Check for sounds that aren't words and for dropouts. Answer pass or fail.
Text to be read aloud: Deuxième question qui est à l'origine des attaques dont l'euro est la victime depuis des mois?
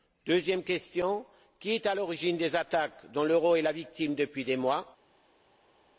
pass